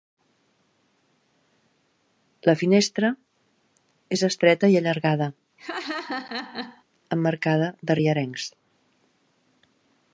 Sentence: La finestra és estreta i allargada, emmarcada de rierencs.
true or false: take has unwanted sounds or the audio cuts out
true